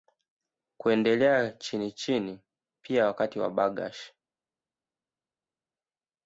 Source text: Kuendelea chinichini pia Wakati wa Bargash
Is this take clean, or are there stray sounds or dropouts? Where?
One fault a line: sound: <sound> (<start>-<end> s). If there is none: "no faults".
no faults